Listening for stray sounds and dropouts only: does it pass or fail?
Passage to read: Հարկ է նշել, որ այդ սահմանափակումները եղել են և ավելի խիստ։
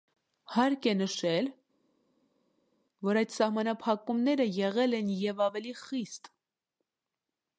pass